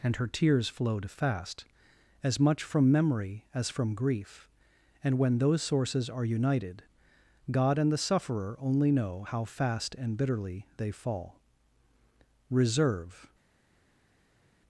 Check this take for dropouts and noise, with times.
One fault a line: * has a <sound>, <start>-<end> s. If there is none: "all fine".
all fine